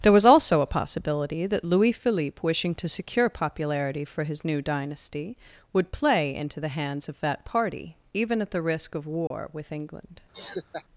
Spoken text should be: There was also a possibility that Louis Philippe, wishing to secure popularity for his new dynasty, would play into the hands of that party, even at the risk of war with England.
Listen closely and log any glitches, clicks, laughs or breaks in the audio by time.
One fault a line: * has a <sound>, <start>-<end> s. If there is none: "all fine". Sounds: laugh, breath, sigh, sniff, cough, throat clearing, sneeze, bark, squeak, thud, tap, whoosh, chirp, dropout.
* has a dropout, 9.3-9.3 s
* has a laugh, 10.3-10.8 s